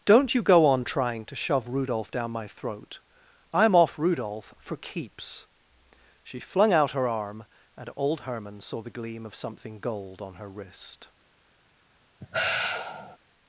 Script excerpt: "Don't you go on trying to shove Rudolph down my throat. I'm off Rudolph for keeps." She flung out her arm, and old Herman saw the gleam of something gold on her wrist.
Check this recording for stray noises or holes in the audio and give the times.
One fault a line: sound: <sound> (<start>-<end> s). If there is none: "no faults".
sound: sigh (12.2-13.2 s)